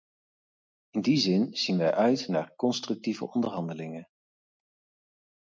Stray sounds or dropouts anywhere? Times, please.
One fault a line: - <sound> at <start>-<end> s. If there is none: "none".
none